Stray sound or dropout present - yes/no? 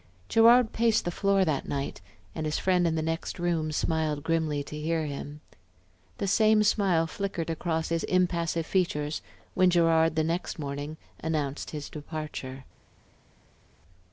no